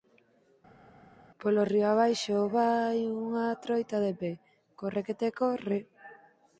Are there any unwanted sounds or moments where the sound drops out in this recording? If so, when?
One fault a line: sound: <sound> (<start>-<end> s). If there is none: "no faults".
no faults